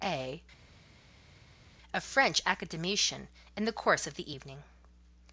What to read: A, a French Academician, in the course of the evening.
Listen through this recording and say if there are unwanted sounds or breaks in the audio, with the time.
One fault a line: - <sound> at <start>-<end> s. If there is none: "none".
none